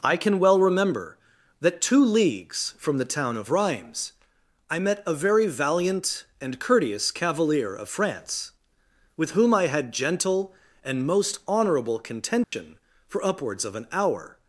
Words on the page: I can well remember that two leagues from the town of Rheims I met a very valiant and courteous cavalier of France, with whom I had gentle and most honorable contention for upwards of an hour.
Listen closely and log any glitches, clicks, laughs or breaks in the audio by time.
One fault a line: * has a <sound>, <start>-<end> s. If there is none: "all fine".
* has a dropout, 12.4-12.5 s